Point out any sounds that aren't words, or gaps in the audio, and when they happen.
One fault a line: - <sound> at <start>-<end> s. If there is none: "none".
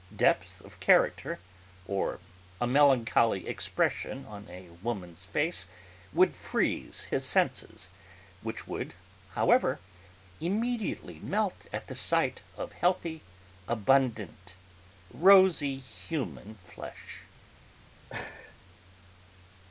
- laugh at 18.1-18.6 s